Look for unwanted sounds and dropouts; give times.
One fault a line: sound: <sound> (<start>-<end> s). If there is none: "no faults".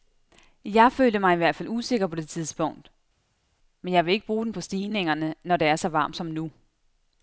no faults